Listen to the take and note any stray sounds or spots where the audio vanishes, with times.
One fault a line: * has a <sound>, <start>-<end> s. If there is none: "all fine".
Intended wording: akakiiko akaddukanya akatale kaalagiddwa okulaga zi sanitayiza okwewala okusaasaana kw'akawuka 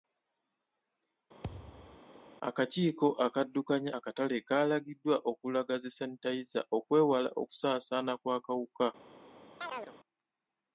* has a thud, 1.4-2.0 s
* has a chirp, 9.6-10.0 s